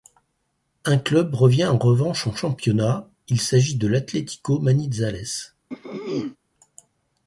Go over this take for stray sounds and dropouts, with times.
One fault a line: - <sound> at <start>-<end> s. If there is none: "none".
- throat clearing at 5.7-6.4 s